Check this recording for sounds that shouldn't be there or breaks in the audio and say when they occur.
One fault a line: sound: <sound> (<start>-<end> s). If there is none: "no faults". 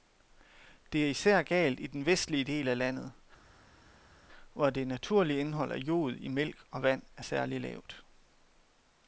no faults